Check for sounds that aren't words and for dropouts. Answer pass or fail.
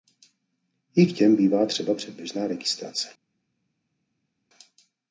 pass